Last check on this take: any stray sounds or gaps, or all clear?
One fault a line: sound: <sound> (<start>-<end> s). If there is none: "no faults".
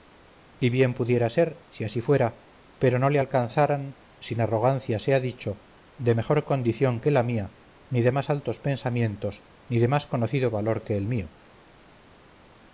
no faults